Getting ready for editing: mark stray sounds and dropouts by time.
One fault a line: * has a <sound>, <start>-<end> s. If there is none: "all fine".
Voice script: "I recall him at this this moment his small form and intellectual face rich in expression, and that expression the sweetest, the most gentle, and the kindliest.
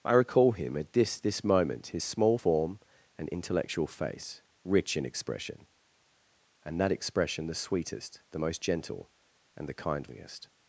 all fine